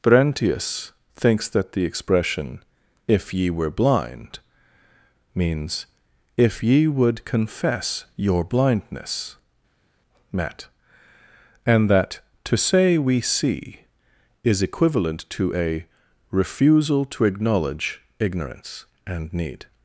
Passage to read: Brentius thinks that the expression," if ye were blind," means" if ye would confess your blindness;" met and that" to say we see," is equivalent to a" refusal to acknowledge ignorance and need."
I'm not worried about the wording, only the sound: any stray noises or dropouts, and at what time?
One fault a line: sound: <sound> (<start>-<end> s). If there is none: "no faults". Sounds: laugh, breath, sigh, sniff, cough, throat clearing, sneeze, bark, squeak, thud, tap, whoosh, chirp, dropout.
no faults